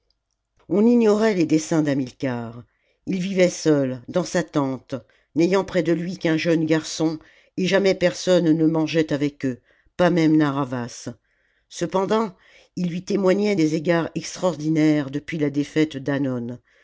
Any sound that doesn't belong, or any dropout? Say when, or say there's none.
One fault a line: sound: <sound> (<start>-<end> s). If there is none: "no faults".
no faults